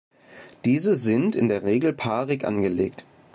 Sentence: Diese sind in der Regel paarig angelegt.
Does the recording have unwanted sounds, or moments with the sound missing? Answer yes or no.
no